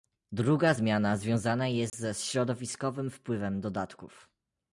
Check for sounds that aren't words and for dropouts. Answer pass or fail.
fail